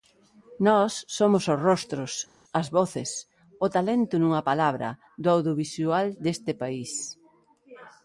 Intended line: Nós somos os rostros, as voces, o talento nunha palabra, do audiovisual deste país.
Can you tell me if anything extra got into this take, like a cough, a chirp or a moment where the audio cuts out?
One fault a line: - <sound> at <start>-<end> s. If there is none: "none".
none